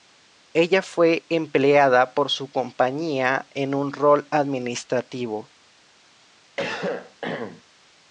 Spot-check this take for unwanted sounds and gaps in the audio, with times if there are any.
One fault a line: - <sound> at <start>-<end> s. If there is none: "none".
- cough at 6.6-7.6 s